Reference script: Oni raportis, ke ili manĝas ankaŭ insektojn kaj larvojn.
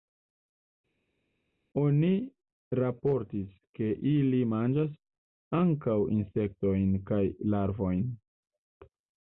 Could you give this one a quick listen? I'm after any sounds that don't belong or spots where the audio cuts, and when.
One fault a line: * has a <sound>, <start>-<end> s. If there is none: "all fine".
all fine